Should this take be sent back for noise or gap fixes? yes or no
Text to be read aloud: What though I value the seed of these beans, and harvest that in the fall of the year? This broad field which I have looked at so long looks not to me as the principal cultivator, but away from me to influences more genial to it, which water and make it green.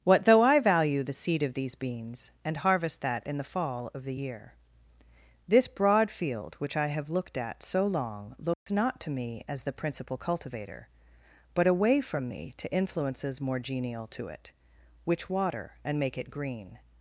yes